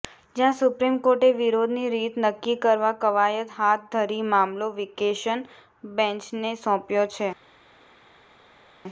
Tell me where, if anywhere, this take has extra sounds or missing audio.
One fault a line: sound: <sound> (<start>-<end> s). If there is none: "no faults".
no faults